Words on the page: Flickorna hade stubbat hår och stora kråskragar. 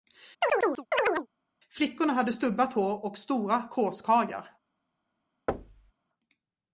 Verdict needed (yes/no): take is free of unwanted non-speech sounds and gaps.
no